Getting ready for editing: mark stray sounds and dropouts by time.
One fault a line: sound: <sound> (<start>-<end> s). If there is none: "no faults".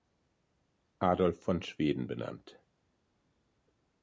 no faults